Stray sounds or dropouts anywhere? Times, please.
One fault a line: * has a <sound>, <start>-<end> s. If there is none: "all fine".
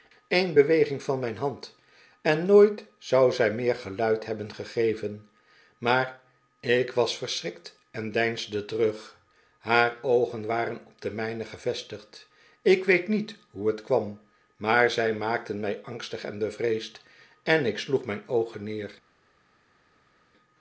all fine